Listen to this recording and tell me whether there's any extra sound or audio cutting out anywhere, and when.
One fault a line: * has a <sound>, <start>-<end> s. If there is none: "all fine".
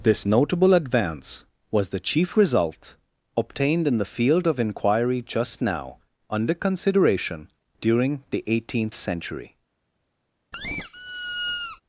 * has a squeak, 10.5-11.8 s